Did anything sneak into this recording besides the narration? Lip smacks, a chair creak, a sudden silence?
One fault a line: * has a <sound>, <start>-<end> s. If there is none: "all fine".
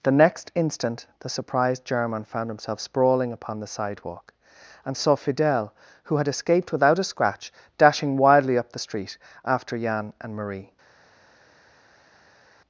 all fine